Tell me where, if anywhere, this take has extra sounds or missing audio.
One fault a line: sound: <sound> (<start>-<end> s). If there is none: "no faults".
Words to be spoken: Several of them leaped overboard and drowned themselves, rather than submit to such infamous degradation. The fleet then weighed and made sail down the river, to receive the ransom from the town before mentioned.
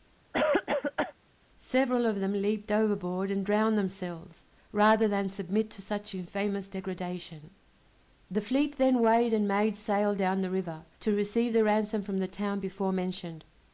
sound: cough (0.3-1.1 s)